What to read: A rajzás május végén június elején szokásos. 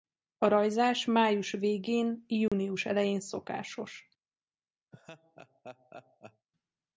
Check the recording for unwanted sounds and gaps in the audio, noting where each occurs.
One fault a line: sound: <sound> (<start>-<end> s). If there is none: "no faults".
sound: dropout (2.5-2.5 s)
sound: laugh (4.9-6.5 s)